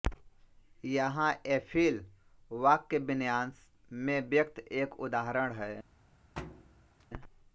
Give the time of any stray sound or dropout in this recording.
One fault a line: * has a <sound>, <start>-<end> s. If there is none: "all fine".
* has a thud, 6.4-7.1 s